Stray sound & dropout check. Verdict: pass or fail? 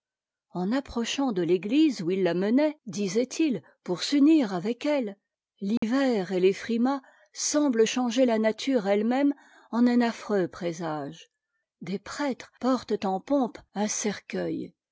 fail